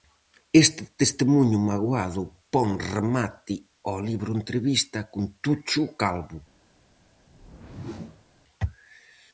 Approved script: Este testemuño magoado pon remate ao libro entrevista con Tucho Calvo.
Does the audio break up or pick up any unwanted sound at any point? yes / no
yes